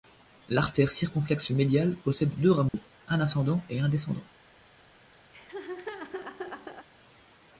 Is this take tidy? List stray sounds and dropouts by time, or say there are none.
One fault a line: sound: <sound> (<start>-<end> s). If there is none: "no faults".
sound: dropout (2.7-2.7 s)
sound: laugh (5.3-6.9 s)